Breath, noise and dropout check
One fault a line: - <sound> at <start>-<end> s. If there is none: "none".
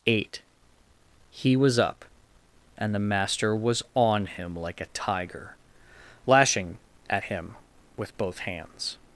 none